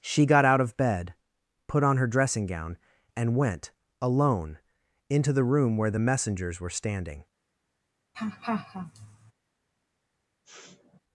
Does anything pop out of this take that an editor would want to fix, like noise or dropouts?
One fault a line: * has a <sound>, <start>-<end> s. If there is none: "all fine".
* has a laugh, 8.1-9.3 s
* has a sniff, 10.4-11.0 s